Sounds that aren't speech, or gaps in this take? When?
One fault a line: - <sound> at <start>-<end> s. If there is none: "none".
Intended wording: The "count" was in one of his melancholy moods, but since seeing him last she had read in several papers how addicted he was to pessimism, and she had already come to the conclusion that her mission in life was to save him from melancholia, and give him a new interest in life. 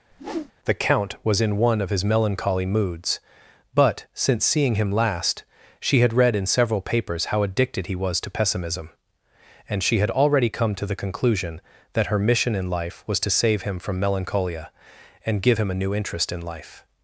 - whoosh at 0.1-0.5 s